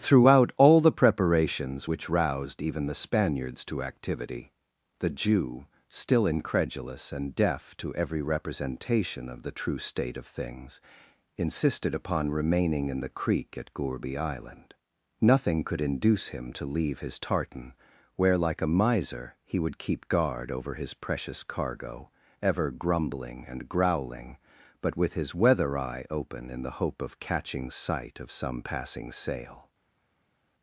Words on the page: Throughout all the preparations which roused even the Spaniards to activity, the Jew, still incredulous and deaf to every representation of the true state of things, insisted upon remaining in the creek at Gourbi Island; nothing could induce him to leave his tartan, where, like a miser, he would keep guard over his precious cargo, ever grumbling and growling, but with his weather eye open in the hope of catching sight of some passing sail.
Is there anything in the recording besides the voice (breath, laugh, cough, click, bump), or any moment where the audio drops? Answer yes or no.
no